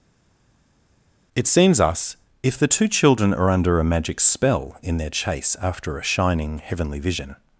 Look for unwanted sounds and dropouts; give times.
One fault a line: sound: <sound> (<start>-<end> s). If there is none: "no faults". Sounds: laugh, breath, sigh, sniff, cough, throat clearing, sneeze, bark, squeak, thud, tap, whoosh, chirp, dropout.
no faults